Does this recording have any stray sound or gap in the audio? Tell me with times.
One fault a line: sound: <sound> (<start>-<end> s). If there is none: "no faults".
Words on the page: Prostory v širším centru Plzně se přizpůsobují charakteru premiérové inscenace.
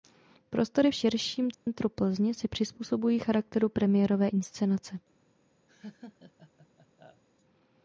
sound: dropout (1.5-1.7 s)
sound: laugh (5.7-7.2 s)